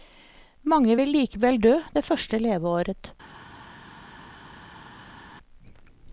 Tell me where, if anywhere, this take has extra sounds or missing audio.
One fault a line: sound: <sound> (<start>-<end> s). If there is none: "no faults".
no faults